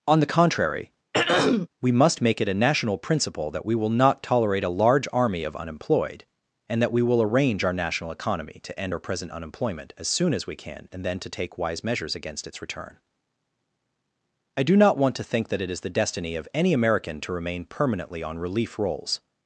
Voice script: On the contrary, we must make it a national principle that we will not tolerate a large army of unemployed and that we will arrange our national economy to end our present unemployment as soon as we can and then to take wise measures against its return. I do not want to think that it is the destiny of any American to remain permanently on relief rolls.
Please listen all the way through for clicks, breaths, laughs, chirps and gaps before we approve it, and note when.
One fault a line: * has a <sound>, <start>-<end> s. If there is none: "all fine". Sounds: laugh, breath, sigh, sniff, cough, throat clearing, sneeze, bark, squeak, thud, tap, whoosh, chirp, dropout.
* has a throat clearing, 1.1-1.7 s